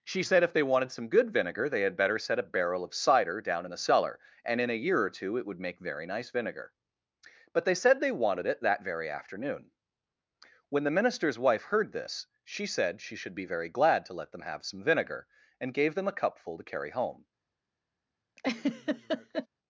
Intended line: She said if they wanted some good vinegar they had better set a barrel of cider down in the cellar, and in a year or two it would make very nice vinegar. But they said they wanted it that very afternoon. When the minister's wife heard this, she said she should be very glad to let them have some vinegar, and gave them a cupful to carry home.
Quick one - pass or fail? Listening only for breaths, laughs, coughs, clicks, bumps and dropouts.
fail